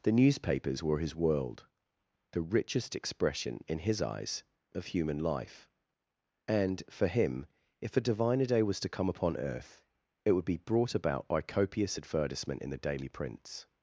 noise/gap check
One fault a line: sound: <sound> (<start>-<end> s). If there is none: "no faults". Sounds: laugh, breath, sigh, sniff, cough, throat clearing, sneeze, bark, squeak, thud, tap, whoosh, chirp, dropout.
no faults